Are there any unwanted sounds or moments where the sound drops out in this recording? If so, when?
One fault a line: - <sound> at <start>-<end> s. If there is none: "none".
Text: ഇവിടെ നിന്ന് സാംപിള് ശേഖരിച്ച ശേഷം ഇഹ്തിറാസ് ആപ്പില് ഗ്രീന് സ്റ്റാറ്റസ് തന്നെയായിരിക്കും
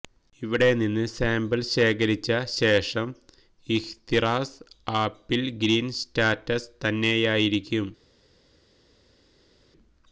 none